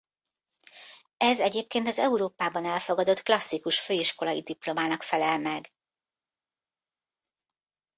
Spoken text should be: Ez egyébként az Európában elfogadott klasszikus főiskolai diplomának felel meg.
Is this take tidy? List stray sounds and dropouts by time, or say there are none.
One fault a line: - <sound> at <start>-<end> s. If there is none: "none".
none